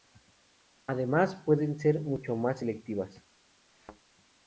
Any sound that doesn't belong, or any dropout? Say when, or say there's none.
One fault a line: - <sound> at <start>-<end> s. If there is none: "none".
- thud at 3.7-4.0 s